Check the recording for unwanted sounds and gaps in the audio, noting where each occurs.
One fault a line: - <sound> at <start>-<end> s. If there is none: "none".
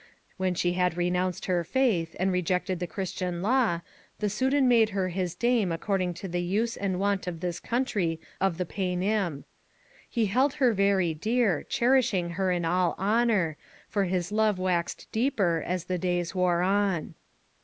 none